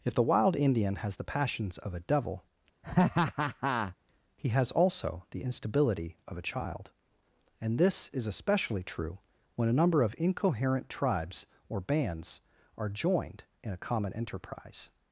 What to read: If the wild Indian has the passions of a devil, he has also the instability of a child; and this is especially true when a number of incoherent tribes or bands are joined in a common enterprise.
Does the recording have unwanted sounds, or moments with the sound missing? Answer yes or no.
yes